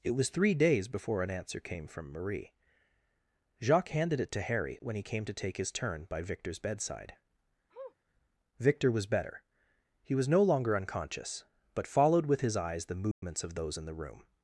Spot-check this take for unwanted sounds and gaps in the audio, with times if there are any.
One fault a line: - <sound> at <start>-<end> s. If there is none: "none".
- sniff at 7.7-8.0 s
- dropout at 13.1-13.2 s